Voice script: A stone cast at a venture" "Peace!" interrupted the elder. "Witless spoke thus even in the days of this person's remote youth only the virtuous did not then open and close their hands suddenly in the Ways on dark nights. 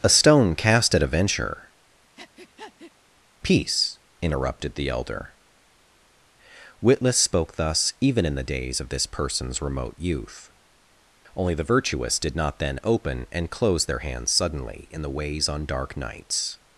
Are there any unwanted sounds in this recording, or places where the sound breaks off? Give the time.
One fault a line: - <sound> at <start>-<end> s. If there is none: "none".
- breath at 2.2-2.9 s